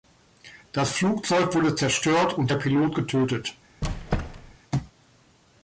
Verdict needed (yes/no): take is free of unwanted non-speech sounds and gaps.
no